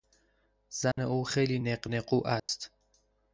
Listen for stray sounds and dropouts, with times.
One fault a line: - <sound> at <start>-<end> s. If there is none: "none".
- dropout at 0.9-1.0 s
- dropout at 2.4-2.5 s